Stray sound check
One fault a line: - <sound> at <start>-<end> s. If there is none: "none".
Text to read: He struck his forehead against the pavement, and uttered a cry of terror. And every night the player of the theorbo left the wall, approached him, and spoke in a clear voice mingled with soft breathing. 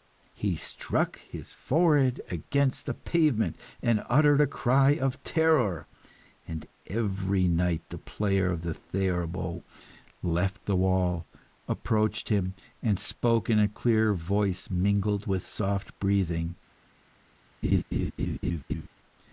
- laugh at 17.6-18.9 s